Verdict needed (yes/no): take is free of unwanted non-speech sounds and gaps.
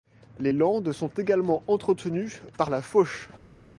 yes